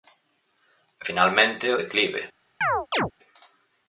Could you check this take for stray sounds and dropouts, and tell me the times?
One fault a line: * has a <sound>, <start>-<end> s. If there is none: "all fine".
* has a chirp, 2.6-3.1 s